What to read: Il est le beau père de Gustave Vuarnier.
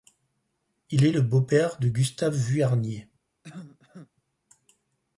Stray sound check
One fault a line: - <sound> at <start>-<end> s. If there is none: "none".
- cough at 3.4-4.1 s